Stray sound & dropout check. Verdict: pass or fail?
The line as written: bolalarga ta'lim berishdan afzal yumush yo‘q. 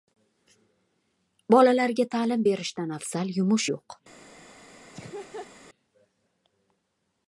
fail